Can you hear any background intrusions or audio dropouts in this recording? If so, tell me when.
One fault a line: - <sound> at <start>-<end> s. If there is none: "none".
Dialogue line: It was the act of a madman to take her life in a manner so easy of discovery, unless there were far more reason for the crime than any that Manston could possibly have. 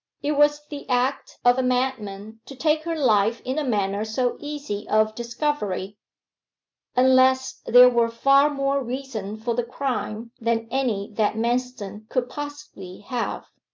none